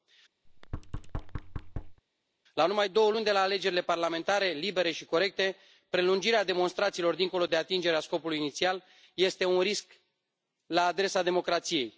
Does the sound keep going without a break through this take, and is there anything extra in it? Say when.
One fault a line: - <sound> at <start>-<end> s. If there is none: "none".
- thud at 0.5-2.0 s